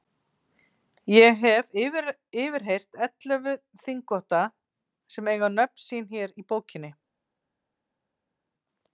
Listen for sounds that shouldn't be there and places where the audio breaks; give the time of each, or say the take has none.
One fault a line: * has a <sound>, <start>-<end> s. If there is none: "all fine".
all fine